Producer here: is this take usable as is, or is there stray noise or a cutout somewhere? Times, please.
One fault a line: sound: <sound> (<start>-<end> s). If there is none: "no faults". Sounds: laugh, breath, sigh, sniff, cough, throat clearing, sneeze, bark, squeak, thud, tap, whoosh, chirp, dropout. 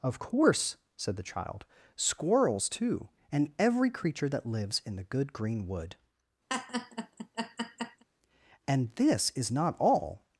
sound: laugh (6.5-8.0 s)